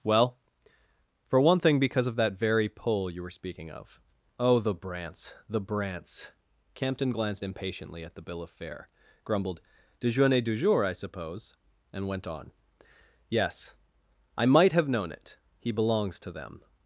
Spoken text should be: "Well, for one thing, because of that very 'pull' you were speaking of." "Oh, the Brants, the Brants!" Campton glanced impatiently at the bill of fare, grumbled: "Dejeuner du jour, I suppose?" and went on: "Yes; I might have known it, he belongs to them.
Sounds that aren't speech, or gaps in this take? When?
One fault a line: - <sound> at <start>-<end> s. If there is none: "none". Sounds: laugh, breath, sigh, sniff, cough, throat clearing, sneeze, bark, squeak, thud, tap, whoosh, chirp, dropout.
none